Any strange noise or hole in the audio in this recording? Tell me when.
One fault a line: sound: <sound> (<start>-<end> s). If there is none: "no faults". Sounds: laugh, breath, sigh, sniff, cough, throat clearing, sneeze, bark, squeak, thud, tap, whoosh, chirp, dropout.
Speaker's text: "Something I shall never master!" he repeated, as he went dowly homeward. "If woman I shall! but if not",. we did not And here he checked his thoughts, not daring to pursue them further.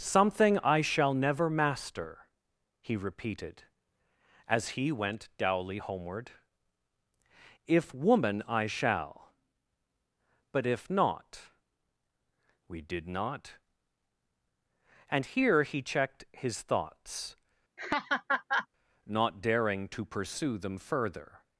sound: laugh (17.8-18.7 s)